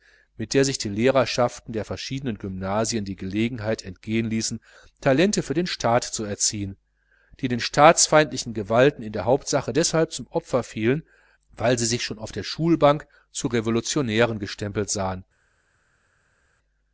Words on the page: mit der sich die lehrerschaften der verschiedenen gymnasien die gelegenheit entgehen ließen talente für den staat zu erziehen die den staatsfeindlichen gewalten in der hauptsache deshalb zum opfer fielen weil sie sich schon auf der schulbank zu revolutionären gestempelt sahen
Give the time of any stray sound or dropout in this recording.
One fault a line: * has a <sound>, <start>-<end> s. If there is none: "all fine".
all fine